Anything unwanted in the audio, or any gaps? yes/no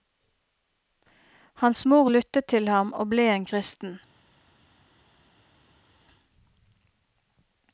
no